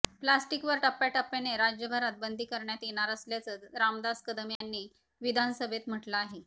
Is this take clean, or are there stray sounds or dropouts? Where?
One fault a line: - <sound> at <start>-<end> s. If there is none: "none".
- dropout at 4.6-4.6 s